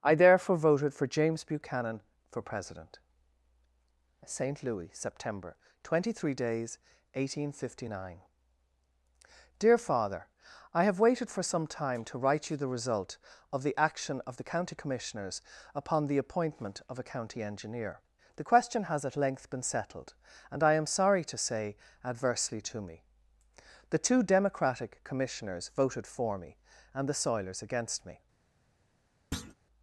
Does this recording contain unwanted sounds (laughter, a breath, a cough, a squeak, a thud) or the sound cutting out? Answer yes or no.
yes